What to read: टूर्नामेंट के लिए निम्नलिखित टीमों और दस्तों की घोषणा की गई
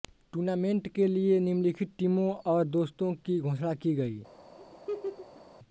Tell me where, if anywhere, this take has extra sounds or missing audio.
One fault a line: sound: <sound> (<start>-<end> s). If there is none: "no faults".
sound: laugh (4.6-5.4 s)